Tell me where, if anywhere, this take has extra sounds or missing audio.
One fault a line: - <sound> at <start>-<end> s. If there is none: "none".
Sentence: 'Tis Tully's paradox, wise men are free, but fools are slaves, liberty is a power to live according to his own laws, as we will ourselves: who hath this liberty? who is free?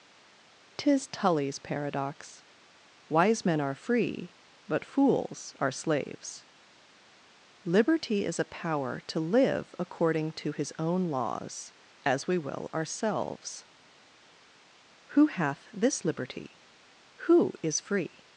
none